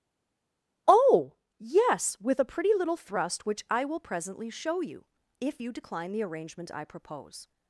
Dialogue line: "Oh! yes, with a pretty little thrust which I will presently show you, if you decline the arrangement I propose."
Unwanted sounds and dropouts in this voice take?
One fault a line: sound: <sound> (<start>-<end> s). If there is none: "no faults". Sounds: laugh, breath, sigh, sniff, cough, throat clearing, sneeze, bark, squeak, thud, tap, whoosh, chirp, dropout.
no faults